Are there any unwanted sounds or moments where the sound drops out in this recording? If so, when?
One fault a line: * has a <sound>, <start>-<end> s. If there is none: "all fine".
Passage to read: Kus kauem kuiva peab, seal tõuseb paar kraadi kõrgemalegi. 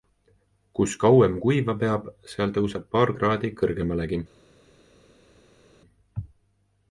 all fine